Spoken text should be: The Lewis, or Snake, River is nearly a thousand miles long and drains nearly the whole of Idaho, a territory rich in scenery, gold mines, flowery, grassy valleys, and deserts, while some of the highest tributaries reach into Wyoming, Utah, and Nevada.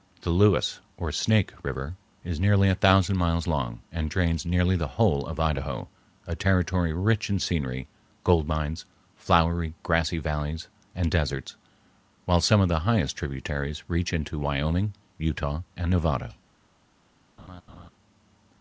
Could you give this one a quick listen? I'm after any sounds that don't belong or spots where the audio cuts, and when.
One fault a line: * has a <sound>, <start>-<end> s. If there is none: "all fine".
* has a laugh, 17.4-17.9 s